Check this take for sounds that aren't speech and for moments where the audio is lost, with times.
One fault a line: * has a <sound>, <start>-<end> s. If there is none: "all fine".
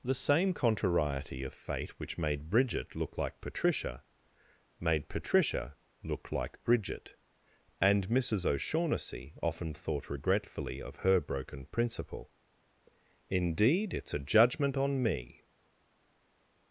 all fine